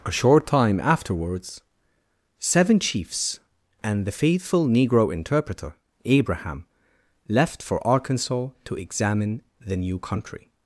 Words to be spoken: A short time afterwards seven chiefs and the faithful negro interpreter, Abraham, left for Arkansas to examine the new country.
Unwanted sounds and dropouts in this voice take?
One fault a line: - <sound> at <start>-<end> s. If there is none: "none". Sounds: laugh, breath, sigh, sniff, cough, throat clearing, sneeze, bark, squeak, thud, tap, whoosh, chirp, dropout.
none